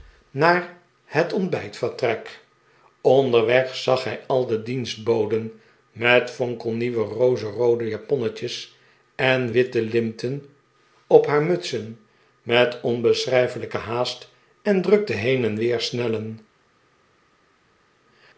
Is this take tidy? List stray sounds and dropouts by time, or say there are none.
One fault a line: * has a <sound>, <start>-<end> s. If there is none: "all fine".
all fine